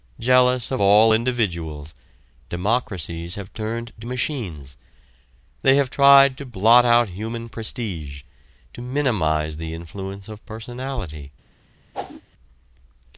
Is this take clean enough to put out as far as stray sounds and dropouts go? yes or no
no